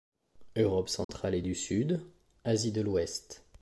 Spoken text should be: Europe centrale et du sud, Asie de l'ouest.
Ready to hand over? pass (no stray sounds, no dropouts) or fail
fail